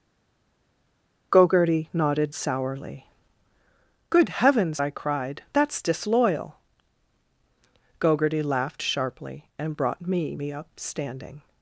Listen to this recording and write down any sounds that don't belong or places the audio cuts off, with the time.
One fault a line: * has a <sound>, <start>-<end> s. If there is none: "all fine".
all fine